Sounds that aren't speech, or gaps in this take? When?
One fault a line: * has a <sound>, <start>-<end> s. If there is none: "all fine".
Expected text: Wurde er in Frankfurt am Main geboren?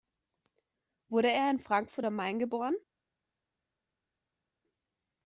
all fine